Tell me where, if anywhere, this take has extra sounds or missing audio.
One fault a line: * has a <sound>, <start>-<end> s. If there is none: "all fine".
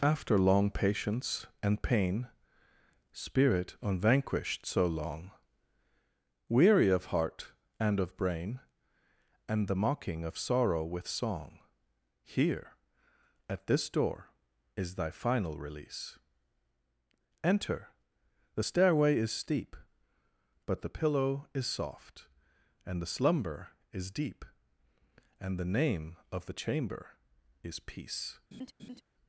* has a laugh, 28.5-29.0 s